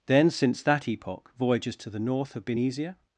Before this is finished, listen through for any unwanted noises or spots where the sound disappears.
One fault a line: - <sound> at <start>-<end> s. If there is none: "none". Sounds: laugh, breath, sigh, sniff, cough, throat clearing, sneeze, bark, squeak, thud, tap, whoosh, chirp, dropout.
none